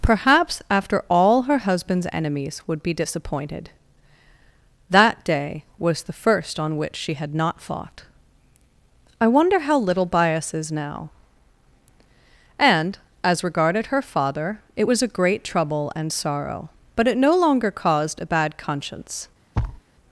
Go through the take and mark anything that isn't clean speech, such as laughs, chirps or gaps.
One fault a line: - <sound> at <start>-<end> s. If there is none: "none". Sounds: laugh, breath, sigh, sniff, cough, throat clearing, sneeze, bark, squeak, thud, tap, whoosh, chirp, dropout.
- thud at 19.5-19.8 s